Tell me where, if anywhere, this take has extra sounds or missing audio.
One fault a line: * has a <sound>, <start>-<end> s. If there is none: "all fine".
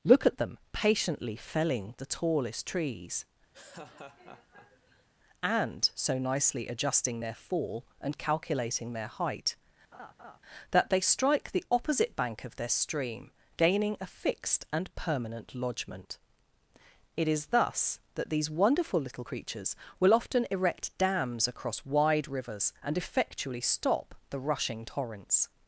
* has a laugh, 3.5-5.1 s
* has a laugh, 9.9-10.4 s